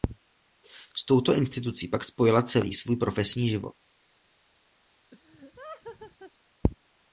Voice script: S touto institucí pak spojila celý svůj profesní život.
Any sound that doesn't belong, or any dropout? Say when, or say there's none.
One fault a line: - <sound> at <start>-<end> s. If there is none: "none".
- laugh at 5.1-6.3 s